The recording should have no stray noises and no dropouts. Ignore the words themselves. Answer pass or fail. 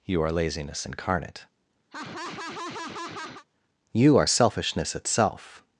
fail